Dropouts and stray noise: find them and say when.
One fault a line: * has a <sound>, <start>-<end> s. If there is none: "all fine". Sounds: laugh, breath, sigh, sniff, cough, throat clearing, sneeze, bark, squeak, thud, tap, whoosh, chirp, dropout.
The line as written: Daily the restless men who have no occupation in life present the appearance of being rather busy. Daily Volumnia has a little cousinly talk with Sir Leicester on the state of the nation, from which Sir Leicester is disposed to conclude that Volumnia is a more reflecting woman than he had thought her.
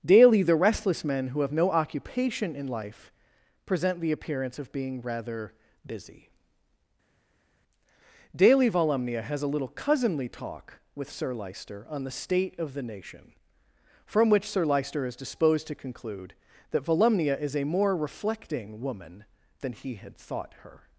all fine